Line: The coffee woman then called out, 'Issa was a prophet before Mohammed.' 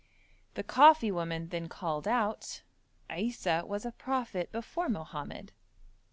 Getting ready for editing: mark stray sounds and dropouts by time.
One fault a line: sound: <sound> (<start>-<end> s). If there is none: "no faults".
no faults